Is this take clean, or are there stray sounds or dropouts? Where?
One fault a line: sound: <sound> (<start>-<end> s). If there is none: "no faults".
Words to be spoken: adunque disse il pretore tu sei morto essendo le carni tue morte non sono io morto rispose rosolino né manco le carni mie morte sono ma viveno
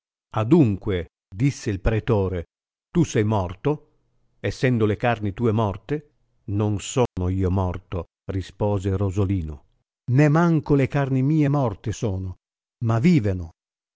sound: dropout (7.1-7.2 s)